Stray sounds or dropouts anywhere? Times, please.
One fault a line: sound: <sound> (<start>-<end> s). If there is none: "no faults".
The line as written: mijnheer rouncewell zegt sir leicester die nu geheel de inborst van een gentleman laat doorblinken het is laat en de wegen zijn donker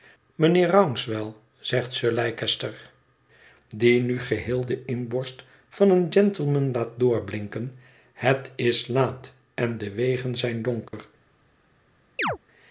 sound: dropout (10.9-10.9 s)
sound: chirp (12.2-12.4 s)